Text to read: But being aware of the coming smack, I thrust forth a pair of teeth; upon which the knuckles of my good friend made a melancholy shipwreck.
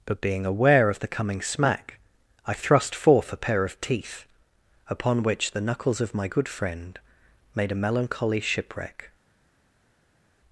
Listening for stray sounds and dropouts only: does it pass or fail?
pass